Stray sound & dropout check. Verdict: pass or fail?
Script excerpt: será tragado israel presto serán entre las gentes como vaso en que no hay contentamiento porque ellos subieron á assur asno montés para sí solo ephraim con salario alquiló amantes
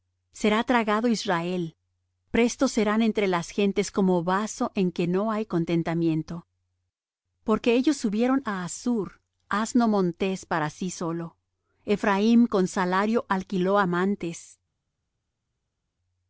pass